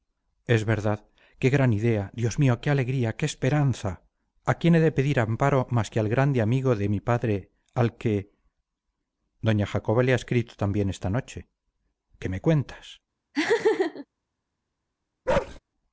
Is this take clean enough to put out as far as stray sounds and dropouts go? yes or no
no